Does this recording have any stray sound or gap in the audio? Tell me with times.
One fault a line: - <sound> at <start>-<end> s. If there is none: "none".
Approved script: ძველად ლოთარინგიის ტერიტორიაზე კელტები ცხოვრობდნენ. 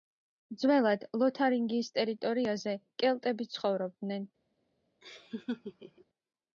- laugh at 5.0-6.1 s